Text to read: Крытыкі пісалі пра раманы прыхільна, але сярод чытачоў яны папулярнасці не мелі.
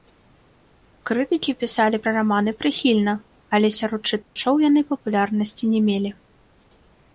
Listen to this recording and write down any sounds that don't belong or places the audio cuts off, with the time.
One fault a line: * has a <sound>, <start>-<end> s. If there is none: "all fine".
* has a dropout, 4.2-4.4 s